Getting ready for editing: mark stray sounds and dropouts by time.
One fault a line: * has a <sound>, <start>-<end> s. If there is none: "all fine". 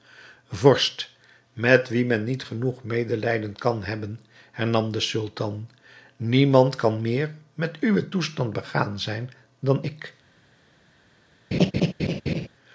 * has a laugh, 11.5-12.5 s